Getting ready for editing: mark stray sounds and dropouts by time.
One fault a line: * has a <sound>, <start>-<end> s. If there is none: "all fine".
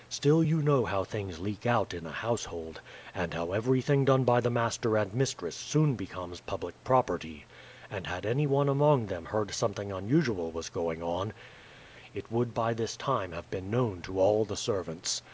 all fine